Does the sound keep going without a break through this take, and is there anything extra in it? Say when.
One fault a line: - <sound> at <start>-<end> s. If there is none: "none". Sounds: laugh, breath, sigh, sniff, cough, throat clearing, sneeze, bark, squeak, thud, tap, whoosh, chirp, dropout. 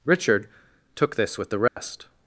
- dropout at 1.7-1.8 s